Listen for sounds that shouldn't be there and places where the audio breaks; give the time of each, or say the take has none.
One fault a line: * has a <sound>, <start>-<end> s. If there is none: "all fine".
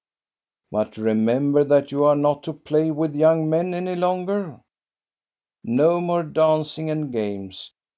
all fine